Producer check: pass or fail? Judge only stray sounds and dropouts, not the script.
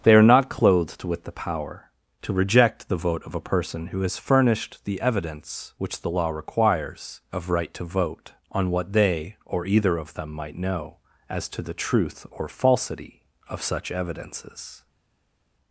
pass